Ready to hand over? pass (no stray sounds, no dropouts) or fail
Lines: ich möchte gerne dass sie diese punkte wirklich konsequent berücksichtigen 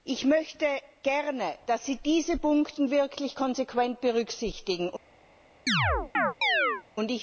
fail